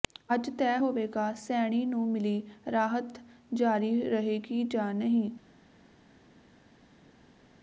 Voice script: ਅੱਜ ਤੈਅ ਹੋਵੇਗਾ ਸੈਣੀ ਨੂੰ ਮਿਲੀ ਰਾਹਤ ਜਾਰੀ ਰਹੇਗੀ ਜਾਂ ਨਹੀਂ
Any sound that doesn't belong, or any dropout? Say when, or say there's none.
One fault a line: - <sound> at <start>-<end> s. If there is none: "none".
none